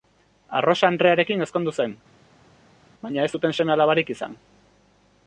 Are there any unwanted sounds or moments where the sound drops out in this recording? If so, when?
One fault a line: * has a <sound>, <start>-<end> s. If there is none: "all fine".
all fine